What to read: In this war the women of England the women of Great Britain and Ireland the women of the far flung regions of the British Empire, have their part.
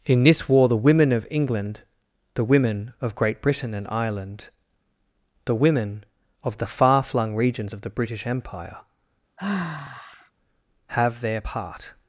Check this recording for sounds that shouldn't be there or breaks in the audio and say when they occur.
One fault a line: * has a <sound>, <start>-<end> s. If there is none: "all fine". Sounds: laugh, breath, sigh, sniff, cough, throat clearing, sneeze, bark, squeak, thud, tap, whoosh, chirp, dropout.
* has a sigh, 9.4-10.3 s